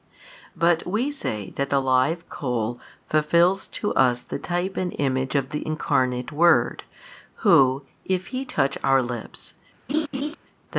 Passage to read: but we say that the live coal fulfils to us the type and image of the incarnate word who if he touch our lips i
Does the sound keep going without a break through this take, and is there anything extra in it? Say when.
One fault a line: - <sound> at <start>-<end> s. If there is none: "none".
- laugh at 9.9-10.4 s